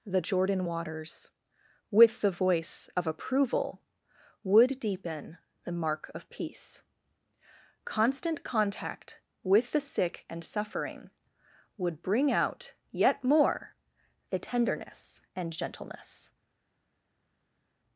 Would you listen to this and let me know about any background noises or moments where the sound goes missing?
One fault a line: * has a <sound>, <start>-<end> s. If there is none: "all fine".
all fine